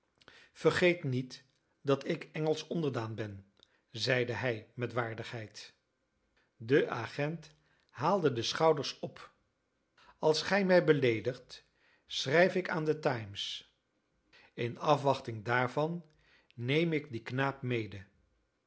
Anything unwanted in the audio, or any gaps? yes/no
no